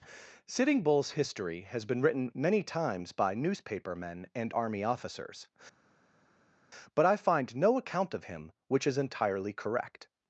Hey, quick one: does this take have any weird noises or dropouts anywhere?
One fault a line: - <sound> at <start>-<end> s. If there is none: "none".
none